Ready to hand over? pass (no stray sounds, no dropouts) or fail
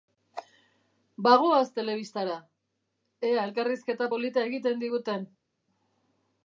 pass